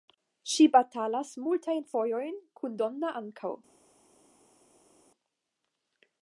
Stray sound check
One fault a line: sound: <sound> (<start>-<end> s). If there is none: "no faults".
no faults